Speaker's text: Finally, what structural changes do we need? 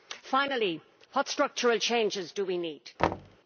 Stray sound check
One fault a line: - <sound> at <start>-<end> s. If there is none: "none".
- thud at 3.0-3.4 s